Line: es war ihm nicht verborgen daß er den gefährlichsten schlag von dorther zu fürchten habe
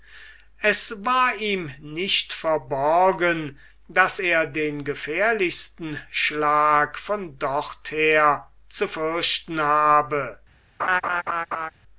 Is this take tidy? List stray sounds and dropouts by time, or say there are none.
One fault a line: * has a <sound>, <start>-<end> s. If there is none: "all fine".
* has a laugh, 10.8-11.7 s